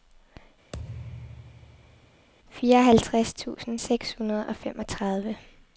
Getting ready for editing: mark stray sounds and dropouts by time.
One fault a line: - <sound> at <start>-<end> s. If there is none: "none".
- thud at 0.7-2.3 s